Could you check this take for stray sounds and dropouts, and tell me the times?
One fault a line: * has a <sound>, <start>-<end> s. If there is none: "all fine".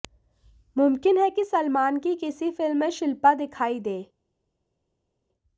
all fine